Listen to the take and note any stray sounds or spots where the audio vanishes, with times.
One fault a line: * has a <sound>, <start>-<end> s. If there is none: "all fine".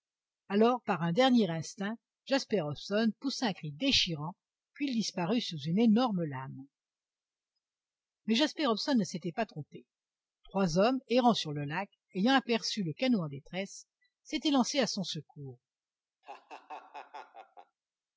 * has a laugh, 16.2-17.8 s